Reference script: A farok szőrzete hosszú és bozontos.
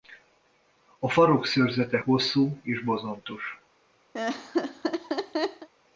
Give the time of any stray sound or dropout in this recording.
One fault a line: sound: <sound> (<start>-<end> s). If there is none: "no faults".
sound: laugh (4.1-5.7 s)